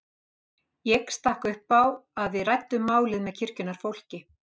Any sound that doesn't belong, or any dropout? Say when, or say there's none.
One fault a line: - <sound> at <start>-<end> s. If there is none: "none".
none